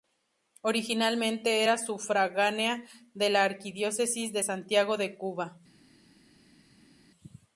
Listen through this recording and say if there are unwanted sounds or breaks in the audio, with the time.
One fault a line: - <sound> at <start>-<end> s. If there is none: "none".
none